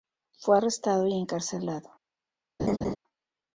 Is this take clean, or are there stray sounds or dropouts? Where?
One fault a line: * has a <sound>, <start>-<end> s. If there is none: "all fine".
* has a laugh, 2.6-3.0 s